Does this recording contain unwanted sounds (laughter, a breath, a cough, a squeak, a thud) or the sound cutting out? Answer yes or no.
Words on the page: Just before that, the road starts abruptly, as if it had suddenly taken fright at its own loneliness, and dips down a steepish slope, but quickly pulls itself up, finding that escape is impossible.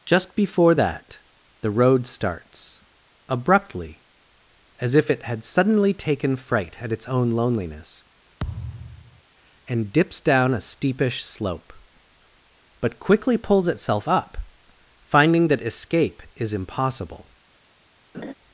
yes